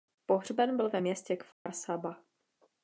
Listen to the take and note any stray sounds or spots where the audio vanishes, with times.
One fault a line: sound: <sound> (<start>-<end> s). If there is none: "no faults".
sound: dropout (1.5-1.7 s)